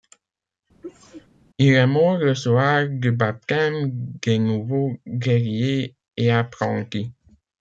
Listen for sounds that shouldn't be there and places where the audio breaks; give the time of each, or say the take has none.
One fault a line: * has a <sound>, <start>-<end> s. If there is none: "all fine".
* has a sneeze, 0.8-1.3 s